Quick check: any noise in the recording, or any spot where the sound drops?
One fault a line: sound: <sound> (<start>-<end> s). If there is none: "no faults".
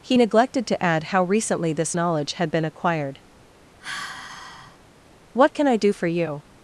sound: sigh (3.8-4.8 s)